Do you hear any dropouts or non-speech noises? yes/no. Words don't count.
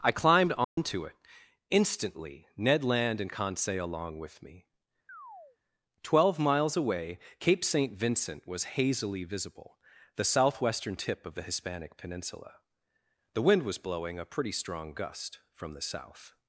yes